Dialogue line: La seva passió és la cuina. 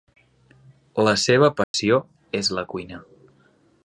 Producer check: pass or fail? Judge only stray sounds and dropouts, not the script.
fail